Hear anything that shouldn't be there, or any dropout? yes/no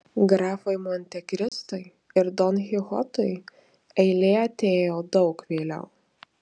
yes